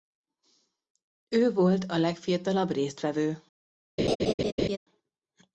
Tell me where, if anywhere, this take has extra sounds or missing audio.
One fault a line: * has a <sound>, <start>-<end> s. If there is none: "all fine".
* has a laugh, 4.0-4.8 s